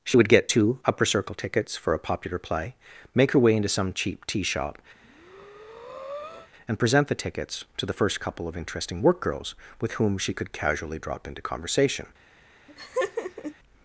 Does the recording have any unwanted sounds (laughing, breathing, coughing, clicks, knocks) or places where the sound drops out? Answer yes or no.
yes